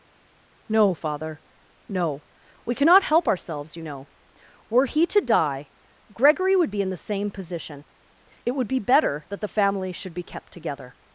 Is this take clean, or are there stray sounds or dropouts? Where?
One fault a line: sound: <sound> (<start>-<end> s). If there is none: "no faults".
no faults